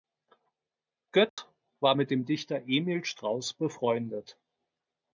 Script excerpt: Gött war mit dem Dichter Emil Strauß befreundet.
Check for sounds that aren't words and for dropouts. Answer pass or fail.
fail